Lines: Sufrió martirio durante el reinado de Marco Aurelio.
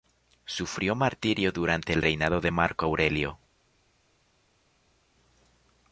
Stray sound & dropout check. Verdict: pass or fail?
pass